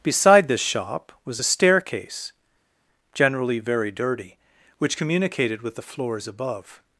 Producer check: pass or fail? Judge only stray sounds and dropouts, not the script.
pass